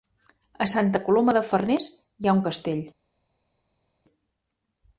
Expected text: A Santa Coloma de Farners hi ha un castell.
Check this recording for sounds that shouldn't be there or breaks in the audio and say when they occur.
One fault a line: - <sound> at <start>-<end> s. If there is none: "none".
none